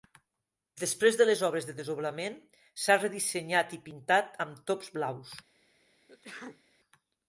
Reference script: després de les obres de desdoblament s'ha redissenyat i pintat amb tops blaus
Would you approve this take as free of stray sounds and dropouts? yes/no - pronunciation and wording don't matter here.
no